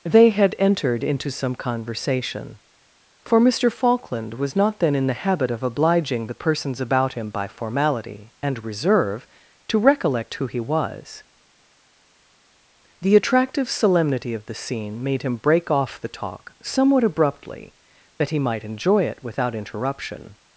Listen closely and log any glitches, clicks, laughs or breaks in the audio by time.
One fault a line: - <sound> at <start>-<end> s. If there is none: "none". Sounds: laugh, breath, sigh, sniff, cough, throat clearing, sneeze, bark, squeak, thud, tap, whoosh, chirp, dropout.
none